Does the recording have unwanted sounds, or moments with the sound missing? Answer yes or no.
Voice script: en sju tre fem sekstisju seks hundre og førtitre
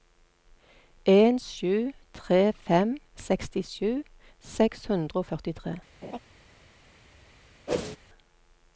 yes